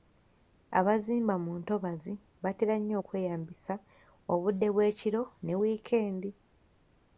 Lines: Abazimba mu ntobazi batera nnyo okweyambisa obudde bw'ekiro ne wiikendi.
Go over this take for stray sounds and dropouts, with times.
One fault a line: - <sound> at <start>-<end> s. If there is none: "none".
none